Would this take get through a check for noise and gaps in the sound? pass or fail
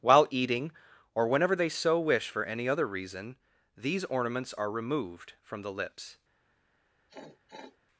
fail